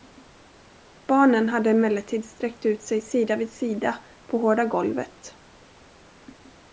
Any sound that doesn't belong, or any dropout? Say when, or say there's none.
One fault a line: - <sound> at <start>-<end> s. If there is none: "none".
none